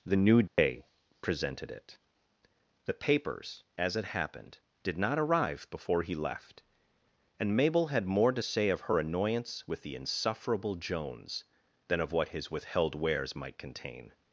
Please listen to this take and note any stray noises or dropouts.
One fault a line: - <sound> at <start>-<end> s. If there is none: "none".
- dropout at 0.5-0.6 s